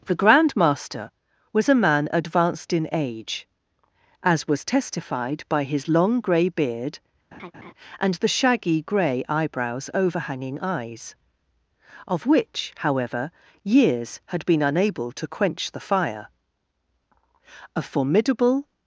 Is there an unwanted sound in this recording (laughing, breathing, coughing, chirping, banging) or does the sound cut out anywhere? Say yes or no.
yes